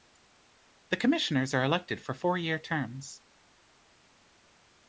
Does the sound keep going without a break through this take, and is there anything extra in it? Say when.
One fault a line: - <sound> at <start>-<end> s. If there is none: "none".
none